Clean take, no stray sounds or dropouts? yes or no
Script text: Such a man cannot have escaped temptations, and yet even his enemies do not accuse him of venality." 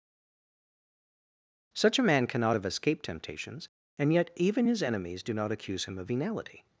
yes